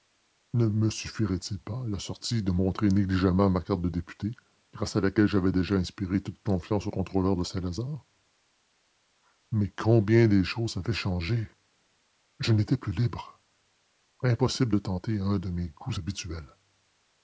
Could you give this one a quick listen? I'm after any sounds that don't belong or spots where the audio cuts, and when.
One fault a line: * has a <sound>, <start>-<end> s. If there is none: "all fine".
all fine